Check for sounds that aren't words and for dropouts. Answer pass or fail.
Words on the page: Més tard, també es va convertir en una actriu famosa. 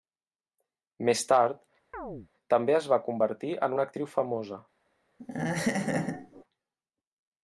fail